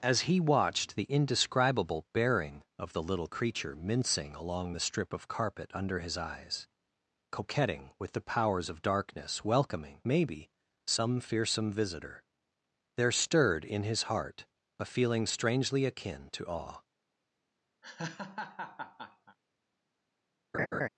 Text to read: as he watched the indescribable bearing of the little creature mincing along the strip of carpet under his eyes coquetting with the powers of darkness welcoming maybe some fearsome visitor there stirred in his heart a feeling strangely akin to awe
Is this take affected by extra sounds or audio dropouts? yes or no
yes